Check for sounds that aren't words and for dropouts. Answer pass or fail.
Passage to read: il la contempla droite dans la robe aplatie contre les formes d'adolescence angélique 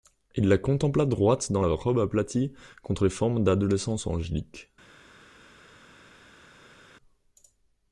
pass